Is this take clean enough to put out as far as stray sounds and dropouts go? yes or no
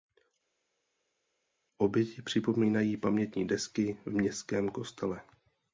yes